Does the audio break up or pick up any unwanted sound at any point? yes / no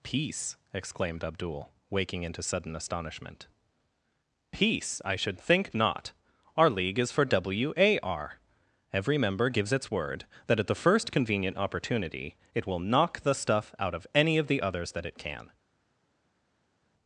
no